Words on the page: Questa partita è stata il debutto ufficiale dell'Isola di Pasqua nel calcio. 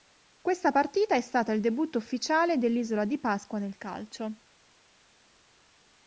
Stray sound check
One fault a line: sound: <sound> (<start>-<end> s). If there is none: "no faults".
no faults